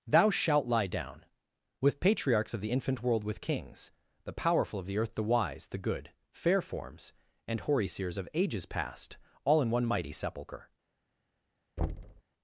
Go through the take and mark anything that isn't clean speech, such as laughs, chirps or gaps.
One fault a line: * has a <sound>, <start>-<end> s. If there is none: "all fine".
* has a thud, 11.8-12.2 s